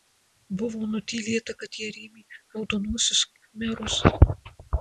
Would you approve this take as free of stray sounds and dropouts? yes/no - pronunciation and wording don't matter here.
yes